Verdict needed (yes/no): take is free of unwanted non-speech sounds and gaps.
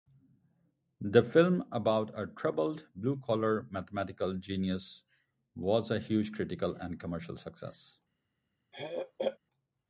no